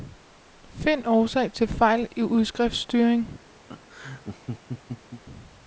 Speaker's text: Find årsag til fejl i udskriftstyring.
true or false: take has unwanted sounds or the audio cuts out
true